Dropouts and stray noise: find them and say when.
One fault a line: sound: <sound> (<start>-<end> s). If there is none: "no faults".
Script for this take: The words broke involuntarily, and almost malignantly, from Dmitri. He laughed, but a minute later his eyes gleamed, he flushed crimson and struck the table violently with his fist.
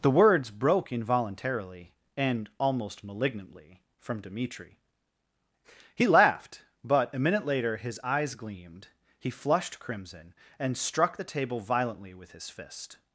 no faults